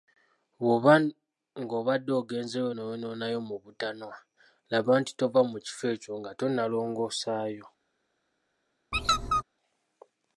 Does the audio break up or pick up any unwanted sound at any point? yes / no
yes